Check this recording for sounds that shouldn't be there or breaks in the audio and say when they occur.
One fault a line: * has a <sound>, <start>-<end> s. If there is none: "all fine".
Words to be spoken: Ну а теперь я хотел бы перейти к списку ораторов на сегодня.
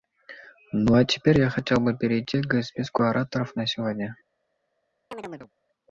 * has a chirp, 5.1-5.5 s